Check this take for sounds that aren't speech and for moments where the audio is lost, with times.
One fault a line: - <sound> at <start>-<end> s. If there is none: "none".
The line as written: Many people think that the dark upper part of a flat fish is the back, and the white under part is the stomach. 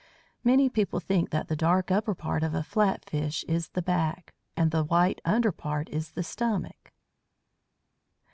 none